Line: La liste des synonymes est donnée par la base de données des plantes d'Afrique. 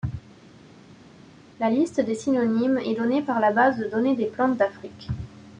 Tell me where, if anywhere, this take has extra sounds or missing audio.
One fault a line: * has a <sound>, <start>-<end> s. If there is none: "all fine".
all fine